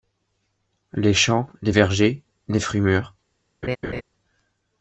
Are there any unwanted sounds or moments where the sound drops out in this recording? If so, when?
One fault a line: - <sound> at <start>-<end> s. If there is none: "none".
- laugh at 3.6-4.0 s